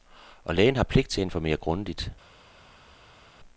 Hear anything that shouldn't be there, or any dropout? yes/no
no